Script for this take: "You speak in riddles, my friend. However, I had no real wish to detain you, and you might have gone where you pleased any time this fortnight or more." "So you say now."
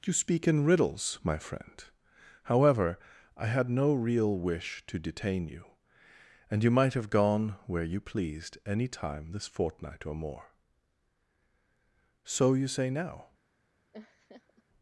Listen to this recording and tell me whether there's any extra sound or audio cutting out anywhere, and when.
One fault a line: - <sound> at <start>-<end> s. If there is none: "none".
- laugh at 13.9-14.6 s